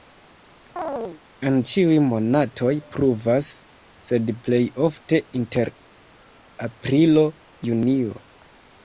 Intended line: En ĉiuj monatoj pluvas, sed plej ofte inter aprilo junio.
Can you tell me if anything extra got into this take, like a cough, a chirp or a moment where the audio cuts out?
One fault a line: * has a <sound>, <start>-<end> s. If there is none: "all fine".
* has a chirp, 0.8-1.2 s